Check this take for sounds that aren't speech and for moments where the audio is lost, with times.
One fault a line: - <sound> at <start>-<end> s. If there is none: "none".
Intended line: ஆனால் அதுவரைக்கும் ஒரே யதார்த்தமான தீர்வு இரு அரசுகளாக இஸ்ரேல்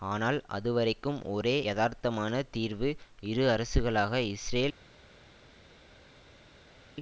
none